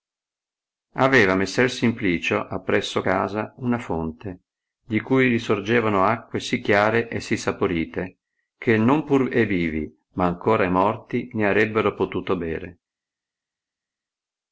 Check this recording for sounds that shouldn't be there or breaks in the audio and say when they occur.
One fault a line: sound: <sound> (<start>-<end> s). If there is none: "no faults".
no faults